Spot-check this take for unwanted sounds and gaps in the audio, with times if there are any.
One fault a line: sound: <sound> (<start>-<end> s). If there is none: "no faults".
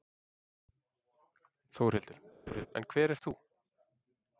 sound: laugh (2.5-2.7 s)